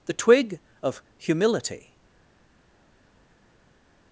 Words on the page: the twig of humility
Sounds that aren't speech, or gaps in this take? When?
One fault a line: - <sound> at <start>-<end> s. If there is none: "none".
none